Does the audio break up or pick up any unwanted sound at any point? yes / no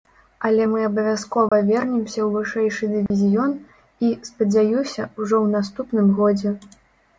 yes